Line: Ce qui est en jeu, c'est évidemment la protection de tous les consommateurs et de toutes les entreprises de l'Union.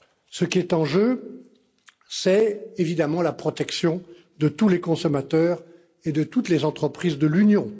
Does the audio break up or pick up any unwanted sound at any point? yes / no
no